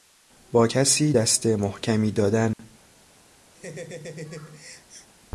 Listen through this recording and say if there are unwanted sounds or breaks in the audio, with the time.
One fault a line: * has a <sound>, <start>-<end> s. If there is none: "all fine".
* has a dropout, 2.5-2.6 s
* has a laugh, 3.5-5.1 s